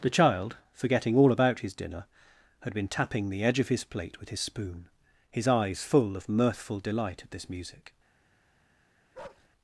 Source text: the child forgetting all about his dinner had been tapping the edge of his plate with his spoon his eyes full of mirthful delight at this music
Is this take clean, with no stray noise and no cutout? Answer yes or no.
no